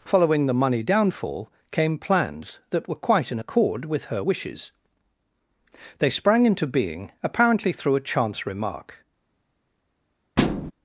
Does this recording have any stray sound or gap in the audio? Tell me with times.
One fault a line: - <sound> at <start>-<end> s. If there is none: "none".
- thud at 10.4-10.7 s